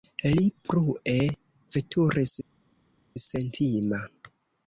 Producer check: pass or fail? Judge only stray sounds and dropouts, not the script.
pass